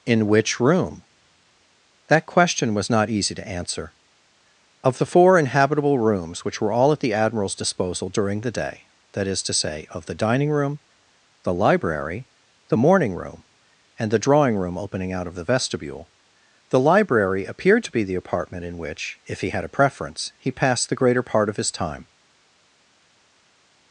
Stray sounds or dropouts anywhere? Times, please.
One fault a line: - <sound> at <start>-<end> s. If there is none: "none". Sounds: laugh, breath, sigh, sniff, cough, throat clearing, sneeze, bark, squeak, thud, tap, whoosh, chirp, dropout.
none